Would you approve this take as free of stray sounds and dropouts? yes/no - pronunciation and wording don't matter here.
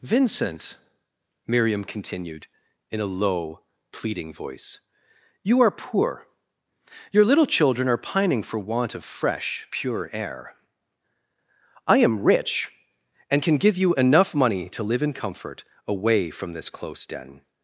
yes